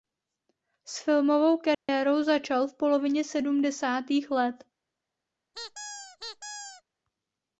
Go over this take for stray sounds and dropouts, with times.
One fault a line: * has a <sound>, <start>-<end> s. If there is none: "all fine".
* has a dropout, 1.7-1.9 s
* has a squeak, 5.5-6.8 s